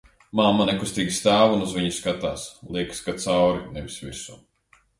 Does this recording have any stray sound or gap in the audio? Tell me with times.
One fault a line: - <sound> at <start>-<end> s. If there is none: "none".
none